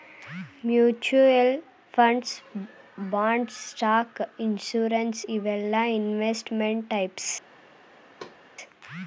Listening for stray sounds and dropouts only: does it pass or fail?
fail